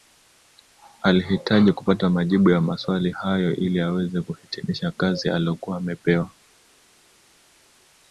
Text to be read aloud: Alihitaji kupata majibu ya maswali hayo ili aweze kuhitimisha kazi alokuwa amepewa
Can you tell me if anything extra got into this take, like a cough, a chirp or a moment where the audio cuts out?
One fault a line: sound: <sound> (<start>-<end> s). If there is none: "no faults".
no faults